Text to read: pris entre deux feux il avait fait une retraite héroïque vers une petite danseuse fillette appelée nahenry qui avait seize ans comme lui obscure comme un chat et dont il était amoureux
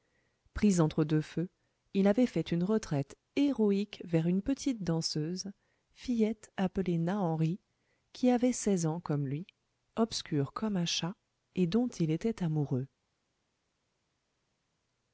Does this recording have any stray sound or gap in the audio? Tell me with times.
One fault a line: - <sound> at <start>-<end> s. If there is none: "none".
none